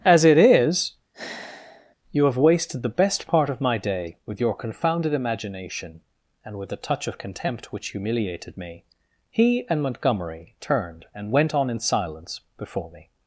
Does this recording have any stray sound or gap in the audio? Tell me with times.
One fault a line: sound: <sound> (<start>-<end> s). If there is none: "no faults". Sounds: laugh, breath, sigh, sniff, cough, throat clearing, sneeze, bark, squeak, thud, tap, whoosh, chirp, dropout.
sound: sigh (1.1-2.0 s)